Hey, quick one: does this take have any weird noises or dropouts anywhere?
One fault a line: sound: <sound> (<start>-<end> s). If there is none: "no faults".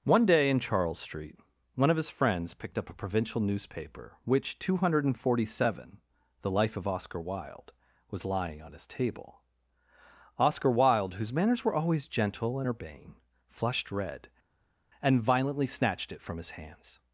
no faults